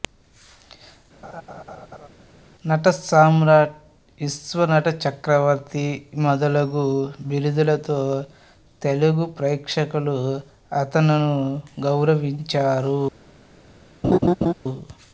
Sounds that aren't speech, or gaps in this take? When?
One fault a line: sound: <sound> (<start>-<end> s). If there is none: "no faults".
sound: laugh (1.2-2.1 s)
sound: laugh (14.0-14.5 s)